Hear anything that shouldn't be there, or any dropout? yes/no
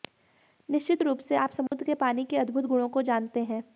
yes